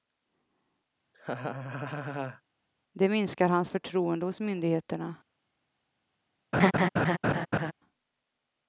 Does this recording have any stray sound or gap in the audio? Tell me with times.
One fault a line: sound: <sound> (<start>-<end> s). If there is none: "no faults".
sound: laugh (1.1-2.4 s)
sound: laugh (6.5-7.7 s)